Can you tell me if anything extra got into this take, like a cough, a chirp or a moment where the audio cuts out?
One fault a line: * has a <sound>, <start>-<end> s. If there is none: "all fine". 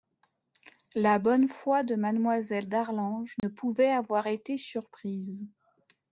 * has a dropout, 3.4-3.4 s